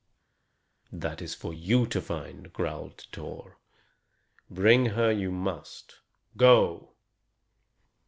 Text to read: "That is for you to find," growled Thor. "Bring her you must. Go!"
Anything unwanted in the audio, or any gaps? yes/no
no